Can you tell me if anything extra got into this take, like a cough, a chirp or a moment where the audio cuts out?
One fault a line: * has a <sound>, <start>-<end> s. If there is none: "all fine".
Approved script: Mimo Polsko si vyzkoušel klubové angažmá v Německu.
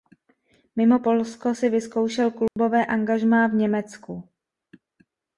* has a dropout, 2.5-2.6 s